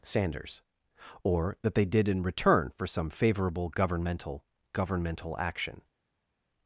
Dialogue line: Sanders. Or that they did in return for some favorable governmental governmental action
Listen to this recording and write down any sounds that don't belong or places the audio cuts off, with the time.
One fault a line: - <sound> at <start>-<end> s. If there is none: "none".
none